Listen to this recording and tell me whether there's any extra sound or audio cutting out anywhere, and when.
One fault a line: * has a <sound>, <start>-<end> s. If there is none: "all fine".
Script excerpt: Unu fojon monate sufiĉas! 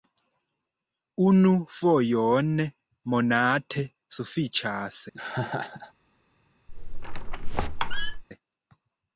* has a laugh, 5.1-5.9 s
* has a squeak, 6.7-8.2 s